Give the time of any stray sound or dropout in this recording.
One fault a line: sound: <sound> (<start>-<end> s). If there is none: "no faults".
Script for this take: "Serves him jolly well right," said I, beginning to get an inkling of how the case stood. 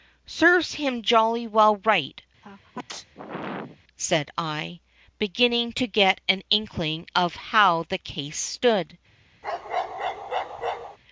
sound: sneeze (2.4-3.8 s)
sound: bark (9.4-11.0 s)